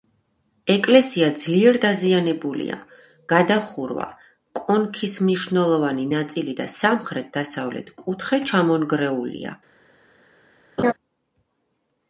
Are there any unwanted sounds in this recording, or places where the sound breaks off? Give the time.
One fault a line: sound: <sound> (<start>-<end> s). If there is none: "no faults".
sound: laugh (10.8-10.9 s)